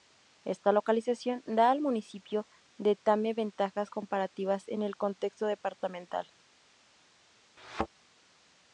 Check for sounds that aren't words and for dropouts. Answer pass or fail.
fail